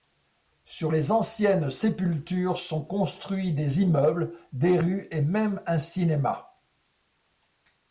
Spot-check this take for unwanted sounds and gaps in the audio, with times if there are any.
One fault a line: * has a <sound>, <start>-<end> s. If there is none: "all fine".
all fine